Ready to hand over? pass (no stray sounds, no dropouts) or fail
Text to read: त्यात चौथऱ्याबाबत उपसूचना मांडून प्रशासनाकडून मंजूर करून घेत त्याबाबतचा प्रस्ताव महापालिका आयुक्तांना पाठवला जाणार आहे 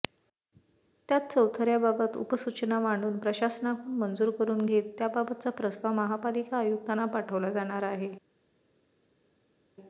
pass